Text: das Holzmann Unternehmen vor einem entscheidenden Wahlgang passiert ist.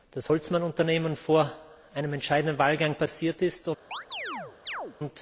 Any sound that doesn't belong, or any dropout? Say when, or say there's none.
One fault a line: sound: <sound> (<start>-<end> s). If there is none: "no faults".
sound: chirp (3.9-5.0 s)